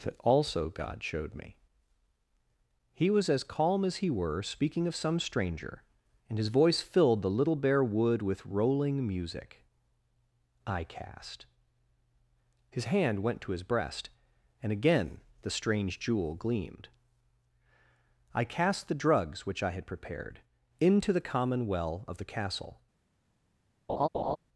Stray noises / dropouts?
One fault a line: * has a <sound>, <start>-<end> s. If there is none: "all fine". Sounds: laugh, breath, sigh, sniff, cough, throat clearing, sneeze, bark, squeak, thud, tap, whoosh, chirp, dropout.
* has a laugh, 23.9-24.4 s